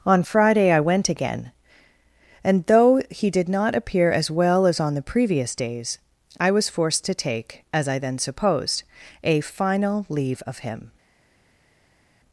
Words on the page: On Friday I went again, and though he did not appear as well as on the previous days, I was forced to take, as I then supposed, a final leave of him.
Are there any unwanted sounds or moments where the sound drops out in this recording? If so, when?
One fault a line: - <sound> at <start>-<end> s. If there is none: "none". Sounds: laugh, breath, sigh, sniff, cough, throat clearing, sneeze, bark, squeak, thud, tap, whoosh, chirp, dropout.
none